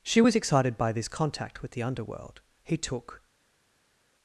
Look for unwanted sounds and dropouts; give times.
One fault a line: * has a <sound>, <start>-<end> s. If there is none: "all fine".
all fine